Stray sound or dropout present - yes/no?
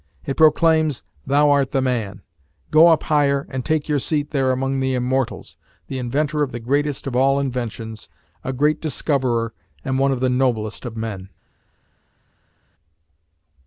no